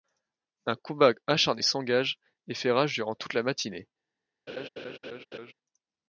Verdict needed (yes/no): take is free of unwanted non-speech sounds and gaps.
no